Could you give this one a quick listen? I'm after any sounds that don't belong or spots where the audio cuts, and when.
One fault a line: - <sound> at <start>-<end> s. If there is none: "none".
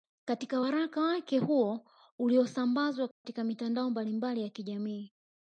- dropout at 3.1-3.2 s